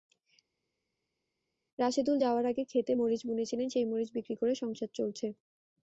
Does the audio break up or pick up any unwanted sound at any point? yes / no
no